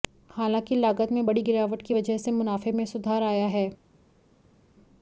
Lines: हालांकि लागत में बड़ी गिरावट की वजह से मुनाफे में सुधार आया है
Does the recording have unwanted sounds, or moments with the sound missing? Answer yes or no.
no